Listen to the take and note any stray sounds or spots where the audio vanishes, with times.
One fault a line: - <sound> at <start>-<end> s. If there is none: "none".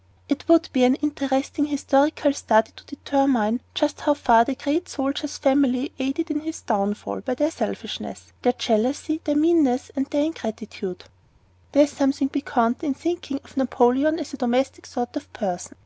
none